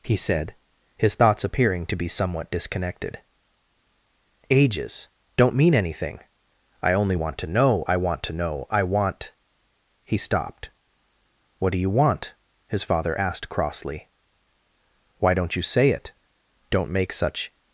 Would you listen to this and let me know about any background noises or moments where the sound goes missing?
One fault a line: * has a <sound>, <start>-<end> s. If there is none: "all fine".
all fine